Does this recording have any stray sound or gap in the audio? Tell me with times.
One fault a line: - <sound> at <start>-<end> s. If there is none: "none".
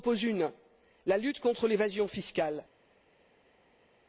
none